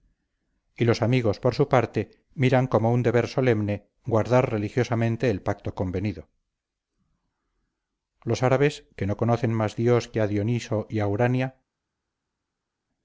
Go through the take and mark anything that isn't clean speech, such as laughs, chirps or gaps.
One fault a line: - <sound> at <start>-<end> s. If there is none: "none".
none